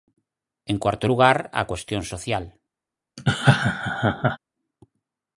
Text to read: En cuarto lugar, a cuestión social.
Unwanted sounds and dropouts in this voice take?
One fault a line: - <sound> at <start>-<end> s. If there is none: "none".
- laugh at 3.2-4.4 s